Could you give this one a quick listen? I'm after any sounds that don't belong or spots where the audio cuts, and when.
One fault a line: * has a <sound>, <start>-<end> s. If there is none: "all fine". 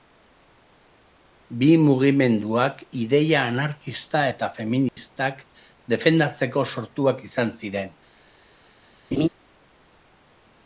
* has a dropout, 4.9-5.0 s
* has a laugh, 9.1-9.3 s